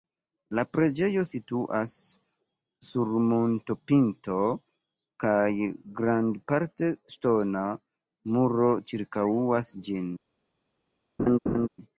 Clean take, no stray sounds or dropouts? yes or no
no